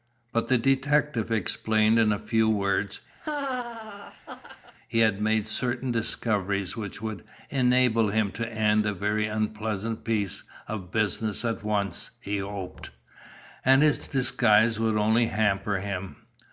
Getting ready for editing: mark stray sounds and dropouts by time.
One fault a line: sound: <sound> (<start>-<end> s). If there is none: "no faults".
sound: laugh (3.2-4.7 s)